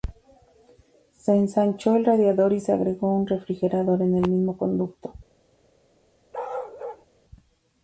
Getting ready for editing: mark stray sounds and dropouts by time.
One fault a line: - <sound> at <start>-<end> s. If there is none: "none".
- bark at 6.3-7.1 s